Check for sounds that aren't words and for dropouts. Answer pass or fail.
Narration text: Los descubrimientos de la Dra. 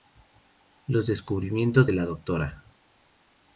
pass